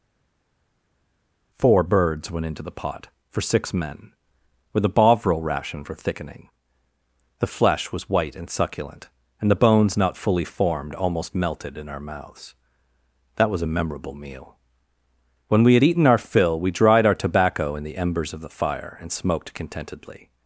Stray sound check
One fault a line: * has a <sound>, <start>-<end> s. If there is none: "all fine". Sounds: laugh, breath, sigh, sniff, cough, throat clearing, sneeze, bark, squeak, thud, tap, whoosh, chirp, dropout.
all fine